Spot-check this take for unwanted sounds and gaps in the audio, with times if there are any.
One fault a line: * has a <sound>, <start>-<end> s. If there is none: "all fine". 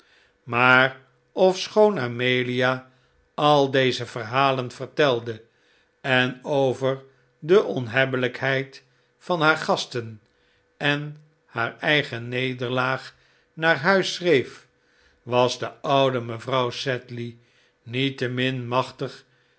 all fine